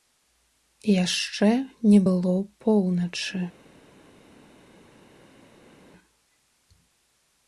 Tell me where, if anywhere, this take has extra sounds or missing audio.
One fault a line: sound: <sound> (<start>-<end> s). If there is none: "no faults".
no faults